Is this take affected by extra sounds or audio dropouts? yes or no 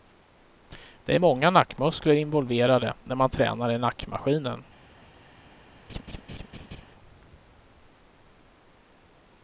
yes